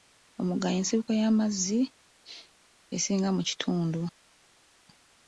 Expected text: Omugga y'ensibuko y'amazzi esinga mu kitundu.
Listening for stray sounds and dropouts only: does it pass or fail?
pass